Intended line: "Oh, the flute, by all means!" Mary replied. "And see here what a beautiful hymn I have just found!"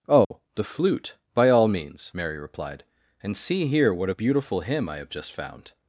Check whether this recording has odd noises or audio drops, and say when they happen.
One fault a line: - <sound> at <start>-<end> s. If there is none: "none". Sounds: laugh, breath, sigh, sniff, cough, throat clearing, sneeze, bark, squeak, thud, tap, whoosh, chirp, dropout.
- dropout at 0.2-0.3 s